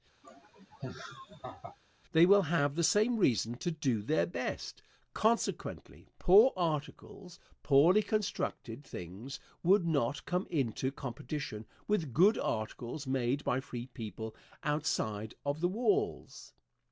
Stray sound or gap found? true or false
true